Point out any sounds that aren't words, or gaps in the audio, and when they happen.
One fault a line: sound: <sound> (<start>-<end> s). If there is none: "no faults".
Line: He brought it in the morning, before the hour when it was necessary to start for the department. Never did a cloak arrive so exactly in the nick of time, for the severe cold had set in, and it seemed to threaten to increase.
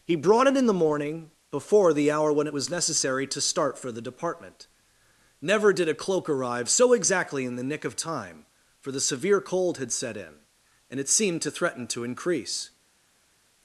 no faults